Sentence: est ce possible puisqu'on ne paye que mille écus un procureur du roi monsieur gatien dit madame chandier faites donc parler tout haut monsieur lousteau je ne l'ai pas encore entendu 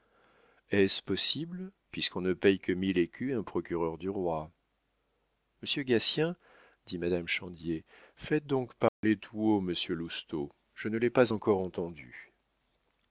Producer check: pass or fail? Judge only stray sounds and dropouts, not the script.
fail